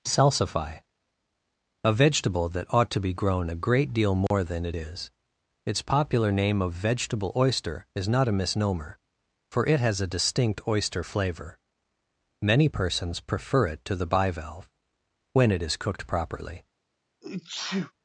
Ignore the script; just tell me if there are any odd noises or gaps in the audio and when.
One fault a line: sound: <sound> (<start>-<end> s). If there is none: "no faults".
sound: dropout (4.3-4.3 s)
sound: sneeze (17.2-17.9 s)